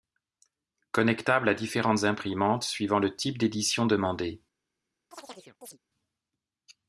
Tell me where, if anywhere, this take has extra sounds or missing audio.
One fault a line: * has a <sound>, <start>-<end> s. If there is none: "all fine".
* has a chirp, 5.1-5.8 s